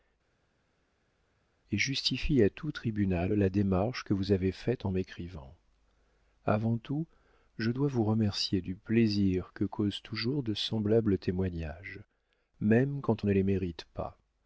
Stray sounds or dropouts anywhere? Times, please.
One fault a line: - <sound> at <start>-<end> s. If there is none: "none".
none